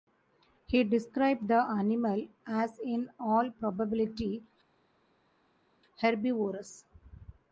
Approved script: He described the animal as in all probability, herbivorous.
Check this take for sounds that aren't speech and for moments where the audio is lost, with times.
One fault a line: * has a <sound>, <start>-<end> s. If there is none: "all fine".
all fine